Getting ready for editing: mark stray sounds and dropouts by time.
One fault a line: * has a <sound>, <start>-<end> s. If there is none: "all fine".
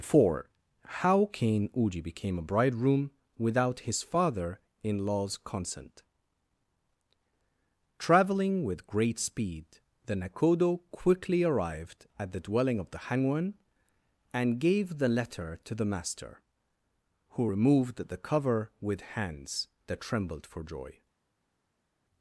all fine